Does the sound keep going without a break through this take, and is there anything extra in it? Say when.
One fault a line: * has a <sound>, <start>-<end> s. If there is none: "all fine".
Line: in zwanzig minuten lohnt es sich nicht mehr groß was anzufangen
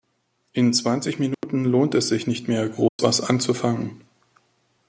* has a dropout, 1.3-1.4 s
* has a dropout, 2.9-3.0 s